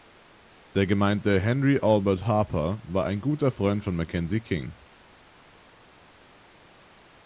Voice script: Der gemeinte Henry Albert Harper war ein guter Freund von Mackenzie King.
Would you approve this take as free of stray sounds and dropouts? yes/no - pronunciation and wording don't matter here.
yes